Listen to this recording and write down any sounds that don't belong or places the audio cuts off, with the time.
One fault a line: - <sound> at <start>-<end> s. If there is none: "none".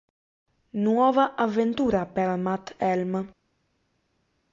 none